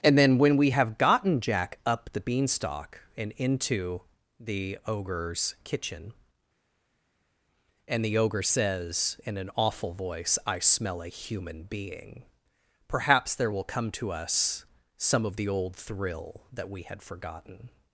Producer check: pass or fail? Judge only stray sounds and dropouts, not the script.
pass